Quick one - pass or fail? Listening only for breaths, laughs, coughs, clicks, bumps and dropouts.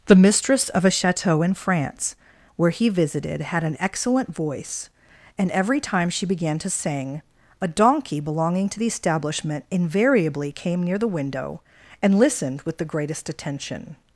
pass